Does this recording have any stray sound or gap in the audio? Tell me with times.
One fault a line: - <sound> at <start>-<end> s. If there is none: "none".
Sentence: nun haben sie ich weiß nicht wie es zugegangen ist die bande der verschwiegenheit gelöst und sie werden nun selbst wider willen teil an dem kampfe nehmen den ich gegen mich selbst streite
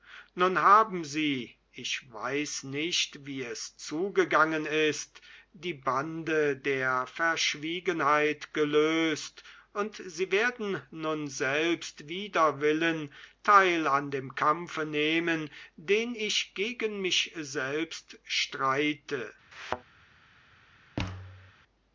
- thud at 19.5-19.8 s
- thud at 21.0-21.5 s